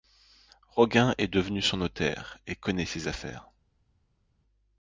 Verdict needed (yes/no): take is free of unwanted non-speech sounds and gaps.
yes